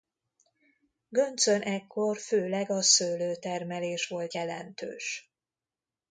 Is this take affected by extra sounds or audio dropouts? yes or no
no